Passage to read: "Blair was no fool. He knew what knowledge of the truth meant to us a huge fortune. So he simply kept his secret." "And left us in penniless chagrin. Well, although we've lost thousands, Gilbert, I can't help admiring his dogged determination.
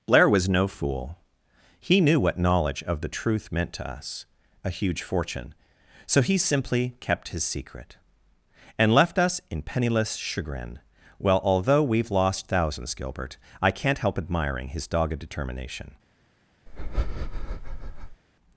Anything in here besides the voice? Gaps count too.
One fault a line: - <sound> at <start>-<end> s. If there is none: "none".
- breath at 16.7-18.2 s